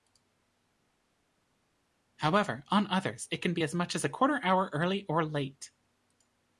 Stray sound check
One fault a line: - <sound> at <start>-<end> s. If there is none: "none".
none